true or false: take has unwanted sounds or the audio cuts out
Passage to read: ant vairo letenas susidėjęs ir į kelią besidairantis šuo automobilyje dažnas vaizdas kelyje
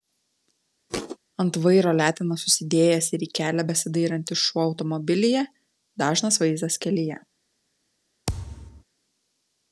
true